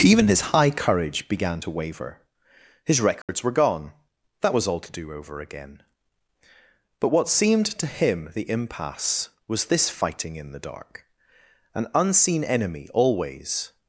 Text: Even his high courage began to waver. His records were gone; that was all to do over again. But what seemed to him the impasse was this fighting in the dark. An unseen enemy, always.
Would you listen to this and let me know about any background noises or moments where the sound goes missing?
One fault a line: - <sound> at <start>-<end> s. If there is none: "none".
- dropout at 3.2-3.3 s